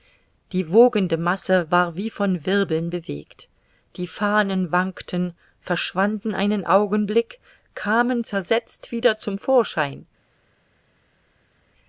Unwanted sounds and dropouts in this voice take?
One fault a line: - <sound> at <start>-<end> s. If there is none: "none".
none